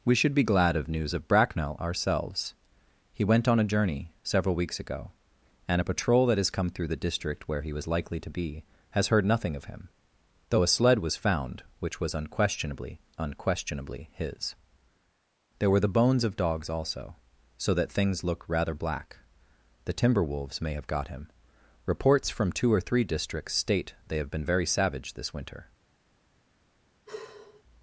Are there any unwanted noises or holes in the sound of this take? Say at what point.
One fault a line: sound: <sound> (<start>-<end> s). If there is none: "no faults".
sound: sigh (27.1-27.6 s)